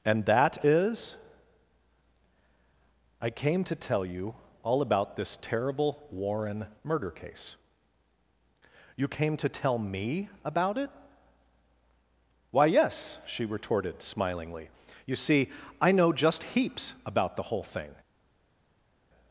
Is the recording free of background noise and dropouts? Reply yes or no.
yes